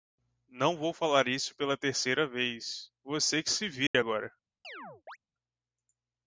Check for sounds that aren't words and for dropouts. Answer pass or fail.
fail